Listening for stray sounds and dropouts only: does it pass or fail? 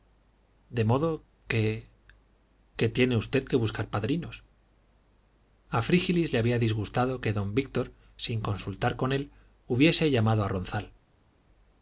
pass